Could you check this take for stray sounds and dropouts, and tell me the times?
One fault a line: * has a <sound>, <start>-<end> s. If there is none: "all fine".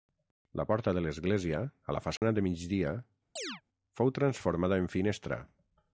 * has a dropout, 2.2-2.2 s
* has a chirp, 3.4-3.6 s